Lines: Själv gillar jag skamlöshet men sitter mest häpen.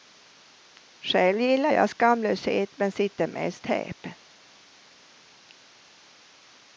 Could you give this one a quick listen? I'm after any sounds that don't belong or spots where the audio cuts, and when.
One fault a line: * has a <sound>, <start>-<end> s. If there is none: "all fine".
all fine